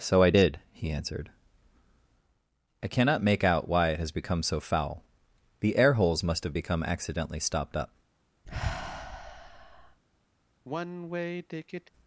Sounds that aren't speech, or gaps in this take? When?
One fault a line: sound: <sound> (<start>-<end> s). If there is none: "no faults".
sound: sigh (8.5-10.0 s)
sound: sigh (10.6-11.9 s)